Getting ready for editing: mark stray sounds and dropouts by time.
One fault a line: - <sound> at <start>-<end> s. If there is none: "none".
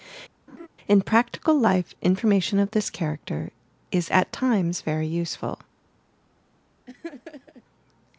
- laugh at 0.5-0.7 s
- laugh at 6.9-7.6 s